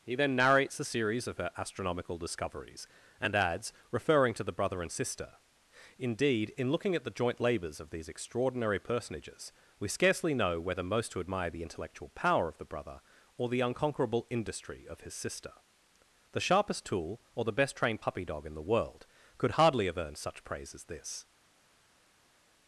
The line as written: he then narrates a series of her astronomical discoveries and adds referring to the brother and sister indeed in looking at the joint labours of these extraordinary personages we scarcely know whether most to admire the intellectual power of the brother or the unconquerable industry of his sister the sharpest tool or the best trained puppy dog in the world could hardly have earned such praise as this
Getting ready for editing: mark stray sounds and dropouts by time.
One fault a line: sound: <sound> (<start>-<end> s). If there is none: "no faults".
no faults